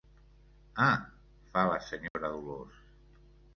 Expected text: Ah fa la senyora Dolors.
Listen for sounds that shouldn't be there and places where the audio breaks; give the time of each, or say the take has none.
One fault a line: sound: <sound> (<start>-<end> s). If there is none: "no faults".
sound: dropout (2.1-2.1 s)